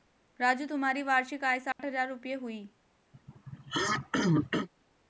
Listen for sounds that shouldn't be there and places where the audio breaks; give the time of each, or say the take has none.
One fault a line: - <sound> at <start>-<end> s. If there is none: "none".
- dropout at 1.7-1.8 s
- throat clearing at 3.1-4.7 s